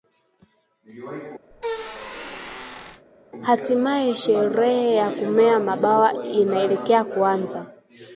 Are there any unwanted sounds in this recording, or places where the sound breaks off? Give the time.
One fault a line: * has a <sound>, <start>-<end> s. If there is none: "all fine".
* has a squeak, 1.5-3.0 s